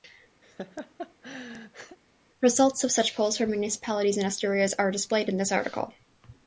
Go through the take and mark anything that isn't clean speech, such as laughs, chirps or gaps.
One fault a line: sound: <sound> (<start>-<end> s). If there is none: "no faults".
sound: laugh (0.4-2.0 s)